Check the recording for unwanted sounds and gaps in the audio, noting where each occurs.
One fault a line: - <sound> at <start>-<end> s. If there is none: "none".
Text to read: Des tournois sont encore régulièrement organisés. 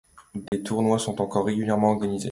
- dropout at 0.5-0.5 s